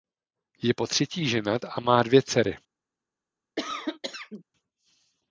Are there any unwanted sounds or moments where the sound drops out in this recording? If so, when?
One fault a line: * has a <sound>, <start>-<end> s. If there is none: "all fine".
* has a cough, 3.6-4.4 s